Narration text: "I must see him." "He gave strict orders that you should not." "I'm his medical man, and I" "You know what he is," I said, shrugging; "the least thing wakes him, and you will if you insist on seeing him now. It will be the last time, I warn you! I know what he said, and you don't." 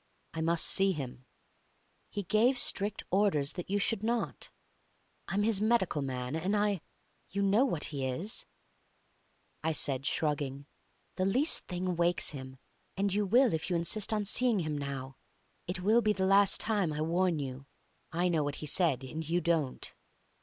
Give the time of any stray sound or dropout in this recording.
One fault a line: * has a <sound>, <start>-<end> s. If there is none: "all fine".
all fine